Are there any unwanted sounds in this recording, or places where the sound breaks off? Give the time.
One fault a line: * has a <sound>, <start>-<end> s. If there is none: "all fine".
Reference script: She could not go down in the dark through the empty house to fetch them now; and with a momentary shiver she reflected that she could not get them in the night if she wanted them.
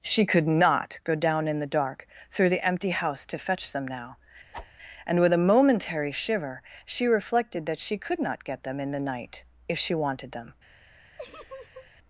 * has a whoosh, 4.5-4.7 s
* has a laugh, 11.2-11.9 s